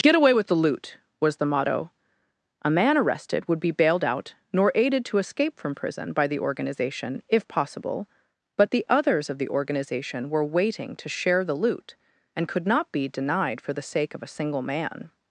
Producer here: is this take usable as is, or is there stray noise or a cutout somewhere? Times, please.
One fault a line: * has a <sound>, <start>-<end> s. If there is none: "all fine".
all fine